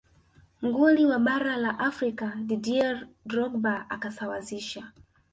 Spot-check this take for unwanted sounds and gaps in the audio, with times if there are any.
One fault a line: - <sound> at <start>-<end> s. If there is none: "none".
none